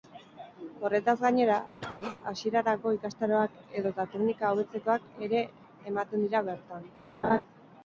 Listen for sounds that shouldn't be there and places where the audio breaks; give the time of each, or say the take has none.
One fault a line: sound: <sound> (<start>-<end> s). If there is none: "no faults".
sound: cough (1.8-2.2 s)
sound: laugh (7.2-7.4 s)